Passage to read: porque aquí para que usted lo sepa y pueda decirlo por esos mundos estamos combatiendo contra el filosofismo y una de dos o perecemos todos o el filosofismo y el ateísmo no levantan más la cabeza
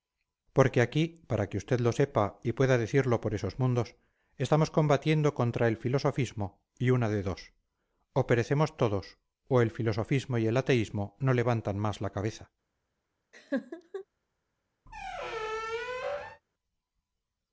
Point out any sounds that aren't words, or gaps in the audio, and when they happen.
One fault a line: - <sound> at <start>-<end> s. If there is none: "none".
- laugh at 13.3-14.0 s
- squeak at 14.9-16.4 s